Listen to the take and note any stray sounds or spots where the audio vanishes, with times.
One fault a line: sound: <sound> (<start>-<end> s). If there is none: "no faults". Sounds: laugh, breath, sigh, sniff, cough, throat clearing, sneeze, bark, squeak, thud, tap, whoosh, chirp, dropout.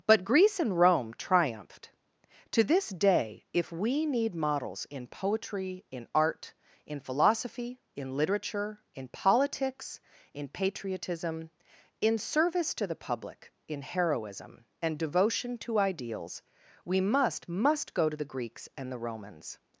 no faults